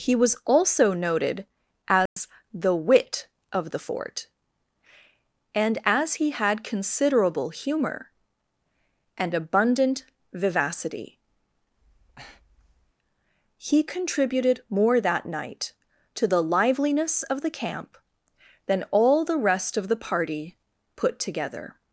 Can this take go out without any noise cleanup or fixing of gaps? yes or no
no